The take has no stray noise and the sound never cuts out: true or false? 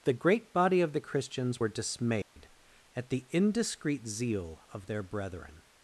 false